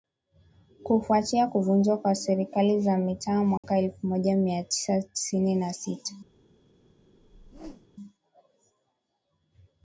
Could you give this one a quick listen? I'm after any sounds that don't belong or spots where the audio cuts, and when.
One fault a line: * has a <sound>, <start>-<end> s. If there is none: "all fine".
* has a dropout, 3.6-3.6 s
* has a whoosh, 7.1-7.9 s